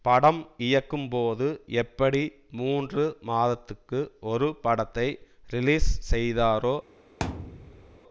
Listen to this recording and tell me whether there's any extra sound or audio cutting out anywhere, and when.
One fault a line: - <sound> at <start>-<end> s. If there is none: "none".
- thud at 7.2-8.0 s